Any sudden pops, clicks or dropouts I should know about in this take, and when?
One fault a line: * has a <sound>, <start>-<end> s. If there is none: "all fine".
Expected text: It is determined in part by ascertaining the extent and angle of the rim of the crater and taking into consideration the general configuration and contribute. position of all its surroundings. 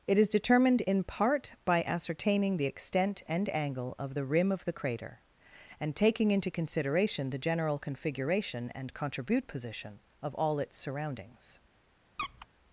* has a squeak, 12.2-12.5 s